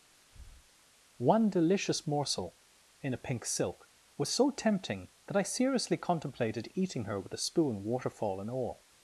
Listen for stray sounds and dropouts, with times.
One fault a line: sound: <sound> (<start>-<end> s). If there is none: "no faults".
sound: breath (0.1-0.7 s)